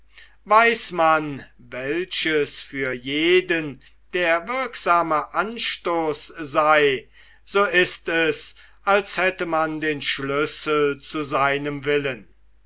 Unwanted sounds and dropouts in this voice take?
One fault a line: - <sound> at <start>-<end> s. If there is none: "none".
none